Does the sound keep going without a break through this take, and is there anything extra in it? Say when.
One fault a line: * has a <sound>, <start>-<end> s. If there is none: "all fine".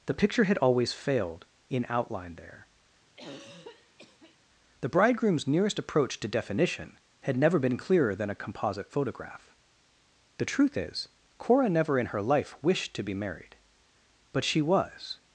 * has a throat clearing, 3.1-4.4 s